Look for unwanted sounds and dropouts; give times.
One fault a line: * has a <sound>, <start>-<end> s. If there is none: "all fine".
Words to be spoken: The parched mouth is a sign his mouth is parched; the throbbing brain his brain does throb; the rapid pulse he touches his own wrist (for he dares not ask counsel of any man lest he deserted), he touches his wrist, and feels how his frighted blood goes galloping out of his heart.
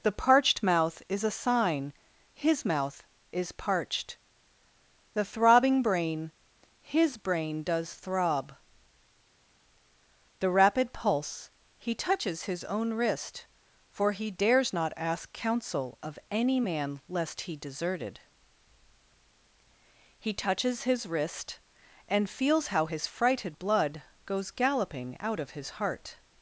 all fine